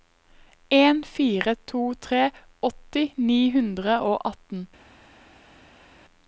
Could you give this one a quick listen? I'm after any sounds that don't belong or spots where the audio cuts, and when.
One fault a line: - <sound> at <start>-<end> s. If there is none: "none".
none